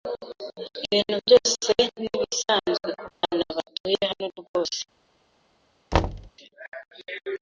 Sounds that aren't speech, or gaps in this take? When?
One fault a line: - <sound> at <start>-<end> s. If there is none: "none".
- dropout at 3.1-3.2 s
- thud at 5.9-6.3 s